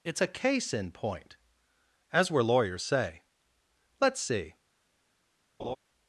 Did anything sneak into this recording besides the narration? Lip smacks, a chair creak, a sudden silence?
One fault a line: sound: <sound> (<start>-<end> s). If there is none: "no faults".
sound: laugh (5.6-5.8 s)